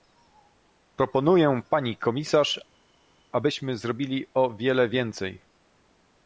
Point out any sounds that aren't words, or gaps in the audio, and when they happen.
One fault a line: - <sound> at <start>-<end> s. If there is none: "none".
none